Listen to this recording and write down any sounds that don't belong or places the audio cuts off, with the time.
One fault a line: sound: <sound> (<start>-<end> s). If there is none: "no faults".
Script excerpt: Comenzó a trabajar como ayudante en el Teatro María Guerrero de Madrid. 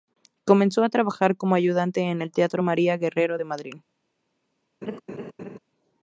sound: laugh (4.8-5.6 s)